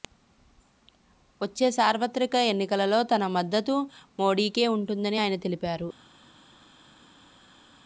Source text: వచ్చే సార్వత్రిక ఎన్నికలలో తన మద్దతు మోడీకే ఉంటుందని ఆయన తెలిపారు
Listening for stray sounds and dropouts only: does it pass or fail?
pass